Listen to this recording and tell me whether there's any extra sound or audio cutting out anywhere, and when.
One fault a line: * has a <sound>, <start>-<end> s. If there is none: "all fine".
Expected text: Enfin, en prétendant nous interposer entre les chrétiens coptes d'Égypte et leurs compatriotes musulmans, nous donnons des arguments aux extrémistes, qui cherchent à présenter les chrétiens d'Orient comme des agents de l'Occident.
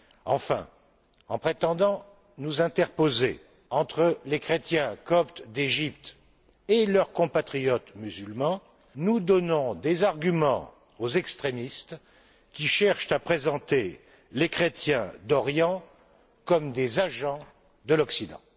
all fine